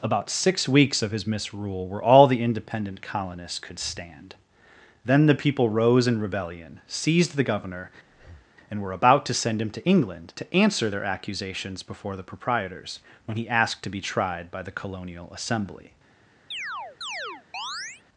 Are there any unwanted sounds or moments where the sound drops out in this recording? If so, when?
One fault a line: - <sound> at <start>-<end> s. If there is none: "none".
- breath at 8.0-8.5 s
- chirp at 16.5-18.0 s